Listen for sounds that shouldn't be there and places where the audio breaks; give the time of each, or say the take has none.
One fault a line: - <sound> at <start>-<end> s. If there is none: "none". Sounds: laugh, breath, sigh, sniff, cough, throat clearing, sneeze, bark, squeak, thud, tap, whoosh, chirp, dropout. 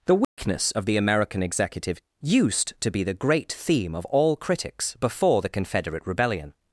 - dropout at 0.2-0.4 s